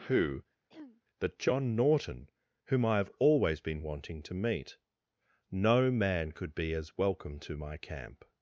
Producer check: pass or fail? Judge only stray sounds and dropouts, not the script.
fail